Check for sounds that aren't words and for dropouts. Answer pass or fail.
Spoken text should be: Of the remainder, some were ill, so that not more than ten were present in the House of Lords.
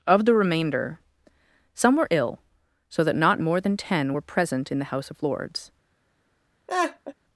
fail